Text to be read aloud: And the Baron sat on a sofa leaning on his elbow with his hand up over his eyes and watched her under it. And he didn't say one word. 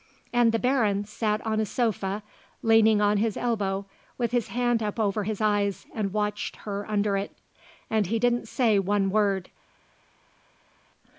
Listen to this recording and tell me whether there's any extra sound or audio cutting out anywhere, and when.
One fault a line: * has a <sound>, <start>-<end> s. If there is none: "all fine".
all fine